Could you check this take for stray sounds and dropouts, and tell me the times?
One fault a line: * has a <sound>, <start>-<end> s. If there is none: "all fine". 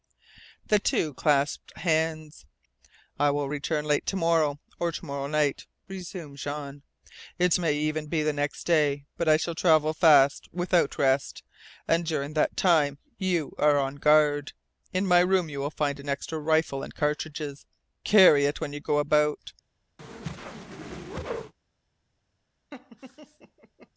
* has a whoosh, 20.0-21.5 s
* has a laugh, 22.7-23.9 s